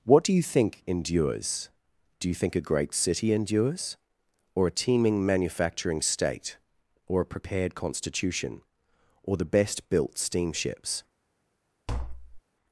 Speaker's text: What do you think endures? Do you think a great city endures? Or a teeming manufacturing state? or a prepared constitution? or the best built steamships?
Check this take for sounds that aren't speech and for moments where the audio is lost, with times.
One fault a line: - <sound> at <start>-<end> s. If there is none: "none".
- tap at 11.9-12.4 s